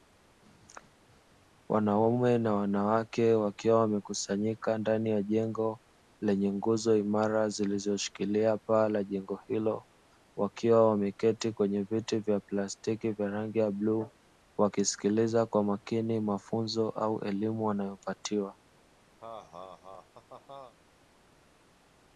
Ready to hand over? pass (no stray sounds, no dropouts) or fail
fail